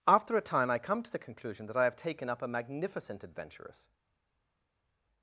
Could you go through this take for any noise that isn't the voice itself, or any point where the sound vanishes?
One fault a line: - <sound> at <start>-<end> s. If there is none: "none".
none